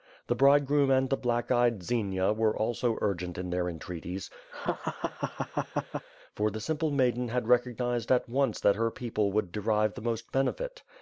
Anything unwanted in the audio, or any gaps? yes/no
yes